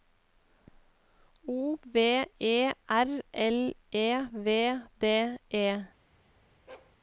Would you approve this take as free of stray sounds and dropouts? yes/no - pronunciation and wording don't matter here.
no